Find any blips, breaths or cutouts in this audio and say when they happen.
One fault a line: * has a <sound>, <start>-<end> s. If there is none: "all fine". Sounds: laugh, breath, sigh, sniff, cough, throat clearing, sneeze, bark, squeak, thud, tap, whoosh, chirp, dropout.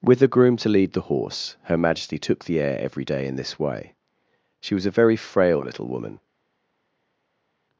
all fine